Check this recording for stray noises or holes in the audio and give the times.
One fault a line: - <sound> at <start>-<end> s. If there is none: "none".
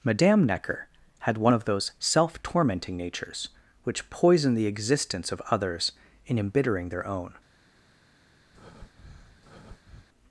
- breath at 8.5-10.1 s